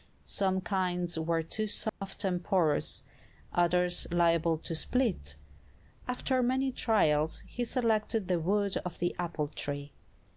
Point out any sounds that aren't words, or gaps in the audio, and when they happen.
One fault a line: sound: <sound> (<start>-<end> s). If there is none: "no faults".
sound: dropout (1.9-2.0 s)